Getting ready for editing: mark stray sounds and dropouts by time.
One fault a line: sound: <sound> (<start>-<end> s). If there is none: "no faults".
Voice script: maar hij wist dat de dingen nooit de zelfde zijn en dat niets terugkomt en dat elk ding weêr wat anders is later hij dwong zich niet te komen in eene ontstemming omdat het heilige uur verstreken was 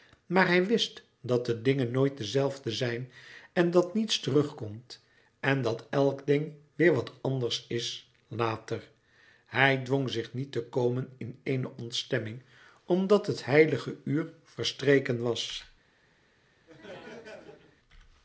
sound: laugh (16.7-17.8 s)